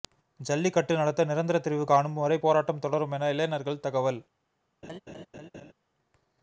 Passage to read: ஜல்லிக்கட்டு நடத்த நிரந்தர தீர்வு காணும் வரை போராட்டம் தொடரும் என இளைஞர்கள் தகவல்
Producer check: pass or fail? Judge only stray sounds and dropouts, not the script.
fail